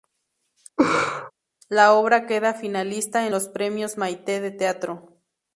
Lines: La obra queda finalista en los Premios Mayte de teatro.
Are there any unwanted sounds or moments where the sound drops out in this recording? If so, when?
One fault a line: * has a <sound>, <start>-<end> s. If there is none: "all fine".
* has a laugh, 0.8-1.3 s